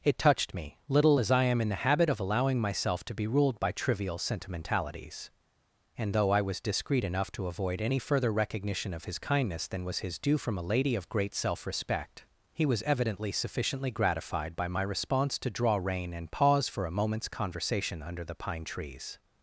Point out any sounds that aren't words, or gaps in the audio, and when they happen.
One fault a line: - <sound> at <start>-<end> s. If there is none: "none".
none